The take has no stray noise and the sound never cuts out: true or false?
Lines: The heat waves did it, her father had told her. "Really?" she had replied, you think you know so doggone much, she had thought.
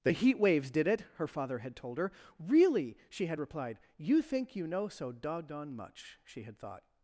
true